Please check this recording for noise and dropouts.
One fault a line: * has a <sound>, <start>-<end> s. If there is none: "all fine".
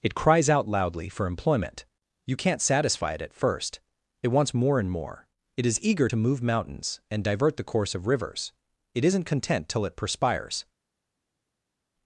all fine